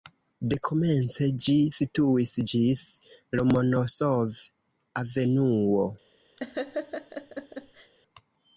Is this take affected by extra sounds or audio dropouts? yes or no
yes